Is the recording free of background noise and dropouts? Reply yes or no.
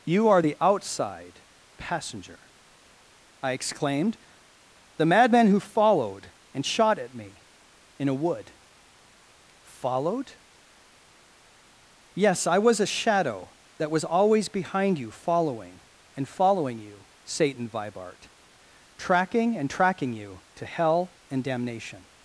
yes